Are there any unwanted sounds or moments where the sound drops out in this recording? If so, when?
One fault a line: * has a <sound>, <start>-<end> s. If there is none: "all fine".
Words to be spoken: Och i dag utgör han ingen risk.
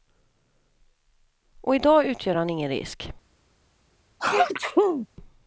* has a sneeze, 4.2-5.1 s